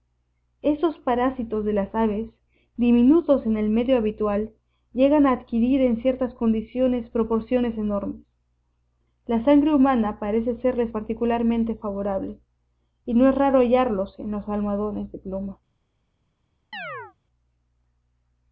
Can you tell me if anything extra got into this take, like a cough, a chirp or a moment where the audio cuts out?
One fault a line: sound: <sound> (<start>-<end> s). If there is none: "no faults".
sound: chirp (16.7-17.1 s)